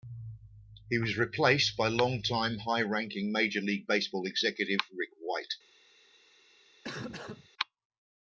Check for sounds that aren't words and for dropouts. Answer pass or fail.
fail